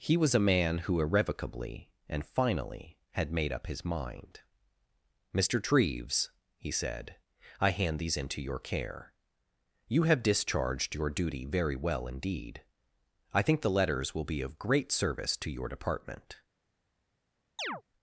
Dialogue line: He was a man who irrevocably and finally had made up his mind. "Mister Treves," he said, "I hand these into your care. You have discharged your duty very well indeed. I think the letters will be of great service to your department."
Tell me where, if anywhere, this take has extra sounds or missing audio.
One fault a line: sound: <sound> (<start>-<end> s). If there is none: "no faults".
sound: chirp (17.6-17.8 s)